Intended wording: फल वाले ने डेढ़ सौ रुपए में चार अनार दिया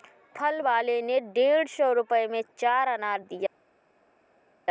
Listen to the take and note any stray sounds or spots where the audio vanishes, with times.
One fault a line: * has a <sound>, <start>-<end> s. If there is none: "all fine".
all fine